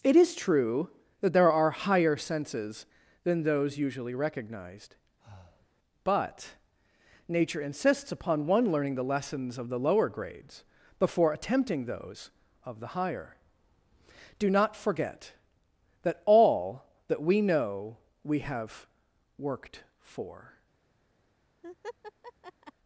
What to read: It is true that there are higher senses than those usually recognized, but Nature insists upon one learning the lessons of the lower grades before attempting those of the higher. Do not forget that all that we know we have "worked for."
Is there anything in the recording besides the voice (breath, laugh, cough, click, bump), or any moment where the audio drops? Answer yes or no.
yes